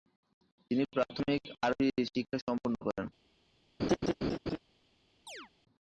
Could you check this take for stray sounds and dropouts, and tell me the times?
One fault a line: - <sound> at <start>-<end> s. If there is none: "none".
- laugh at 3.8-4.6 s
- chirp at 5.3-5.5 s